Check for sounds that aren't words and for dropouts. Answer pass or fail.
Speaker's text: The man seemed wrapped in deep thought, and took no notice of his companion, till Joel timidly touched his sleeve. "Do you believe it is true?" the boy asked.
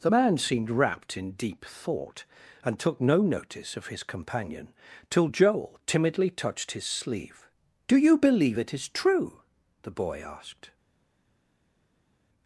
pass